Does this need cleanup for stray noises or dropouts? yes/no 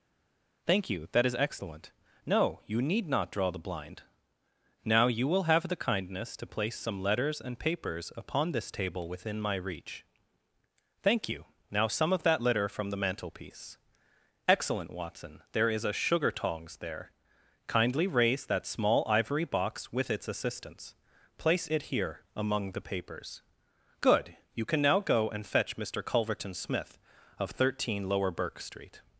no